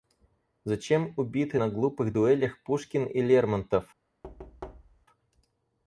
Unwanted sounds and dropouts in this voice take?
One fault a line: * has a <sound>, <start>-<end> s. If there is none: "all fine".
* has a thud, 4.2-5.1 s